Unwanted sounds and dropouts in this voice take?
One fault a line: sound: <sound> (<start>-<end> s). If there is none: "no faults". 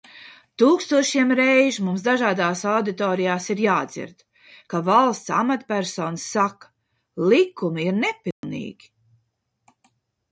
sound: dropout (8.3-8.4 s)